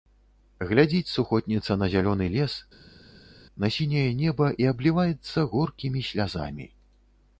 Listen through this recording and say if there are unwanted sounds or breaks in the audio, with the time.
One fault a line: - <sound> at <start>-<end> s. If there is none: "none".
none